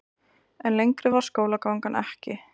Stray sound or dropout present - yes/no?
no